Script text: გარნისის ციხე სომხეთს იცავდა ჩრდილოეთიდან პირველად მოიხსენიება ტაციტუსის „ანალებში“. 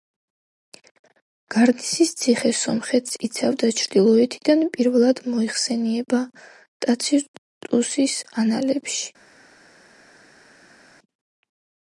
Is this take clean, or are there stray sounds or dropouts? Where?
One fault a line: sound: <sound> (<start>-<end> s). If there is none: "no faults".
no faults